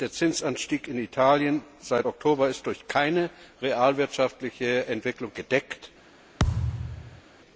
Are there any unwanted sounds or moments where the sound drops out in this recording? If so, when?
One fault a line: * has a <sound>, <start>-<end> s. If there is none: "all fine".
* has a thud, 6.4-7.2 s